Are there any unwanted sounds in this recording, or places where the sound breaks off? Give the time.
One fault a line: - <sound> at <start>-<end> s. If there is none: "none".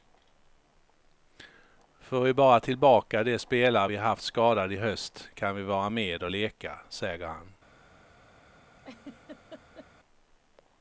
- laugh at 8.8-9.9 s